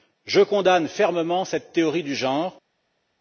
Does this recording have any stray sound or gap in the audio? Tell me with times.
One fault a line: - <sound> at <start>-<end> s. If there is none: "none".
none